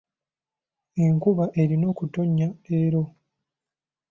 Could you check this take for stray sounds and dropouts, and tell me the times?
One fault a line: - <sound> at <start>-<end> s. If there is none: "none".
none